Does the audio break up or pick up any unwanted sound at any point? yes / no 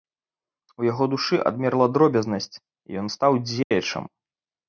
yes